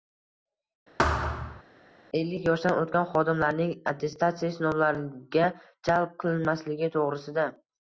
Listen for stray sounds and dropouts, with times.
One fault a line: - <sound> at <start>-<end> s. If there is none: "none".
- thud at 1.0-1.6 s